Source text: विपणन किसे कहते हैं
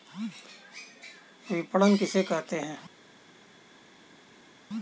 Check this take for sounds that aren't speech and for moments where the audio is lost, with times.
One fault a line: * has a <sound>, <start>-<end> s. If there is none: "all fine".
all fine